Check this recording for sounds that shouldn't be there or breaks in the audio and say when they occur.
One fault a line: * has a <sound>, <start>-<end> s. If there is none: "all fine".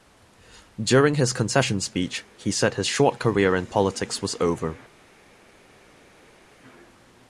all fine